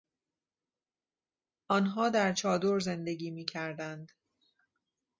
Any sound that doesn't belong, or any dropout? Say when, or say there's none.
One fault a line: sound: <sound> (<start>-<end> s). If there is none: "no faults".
no faults